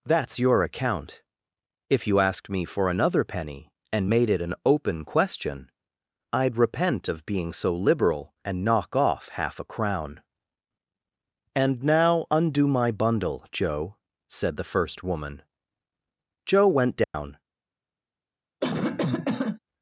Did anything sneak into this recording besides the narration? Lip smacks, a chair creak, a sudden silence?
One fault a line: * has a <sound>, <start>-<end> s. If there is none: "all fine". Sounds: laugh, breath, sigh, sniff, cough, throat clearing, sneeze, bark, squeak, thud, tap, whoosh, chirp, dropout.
* has a dropout, 17.0-17.1 s
* has a cough, 18.6-19.6 s